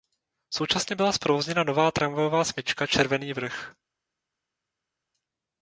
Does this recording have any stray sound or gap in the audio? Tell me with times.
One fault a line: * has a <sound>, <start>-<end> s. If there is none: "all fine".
all fine